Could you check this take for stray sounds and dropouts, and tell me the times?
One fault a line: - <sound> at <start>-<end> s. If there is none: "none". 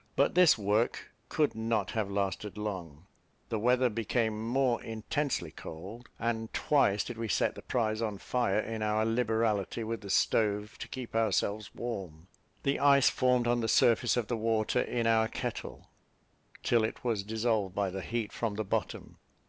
none